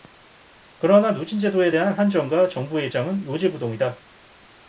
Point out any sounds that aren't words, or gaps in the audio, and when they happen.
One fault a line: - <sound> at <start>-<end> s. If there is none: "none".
none